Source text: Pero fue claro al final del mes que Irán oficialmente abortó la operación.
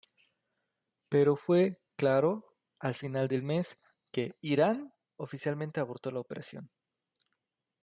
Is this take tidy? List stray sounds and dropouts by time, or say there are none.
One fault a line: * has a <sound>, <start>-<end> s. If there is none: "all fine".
all fine